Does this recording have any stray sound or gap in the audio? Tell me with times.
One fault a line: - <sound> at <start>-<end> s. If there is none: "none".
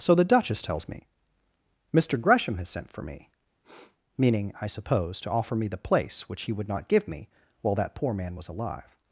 - sniff at 3.6-4.0 s